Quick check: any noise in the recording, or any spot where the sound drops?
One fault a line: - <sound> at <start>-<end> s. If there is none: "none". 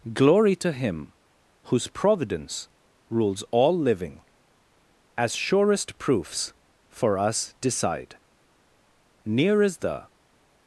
none